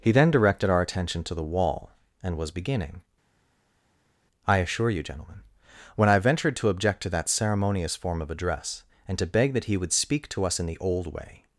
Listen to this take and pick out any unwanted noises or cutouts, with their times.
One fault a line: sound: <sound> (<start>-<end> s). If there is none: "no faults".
no faults